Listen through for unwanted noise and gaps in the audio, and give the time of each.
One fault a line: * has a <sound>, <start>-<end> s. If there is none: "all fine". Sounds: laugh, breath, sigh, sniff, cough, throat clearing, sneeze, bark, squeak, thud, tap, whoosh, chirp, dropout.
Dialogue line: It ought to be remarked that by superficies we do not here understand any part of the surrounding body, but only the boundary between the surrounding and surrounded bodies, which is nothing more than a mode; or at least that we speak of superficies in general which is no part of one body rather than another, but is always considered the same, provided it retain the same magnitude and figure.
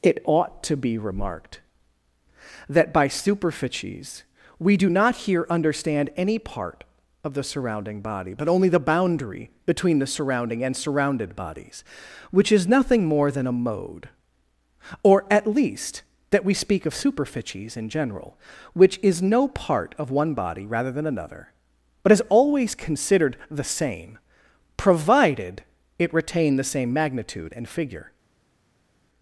all fine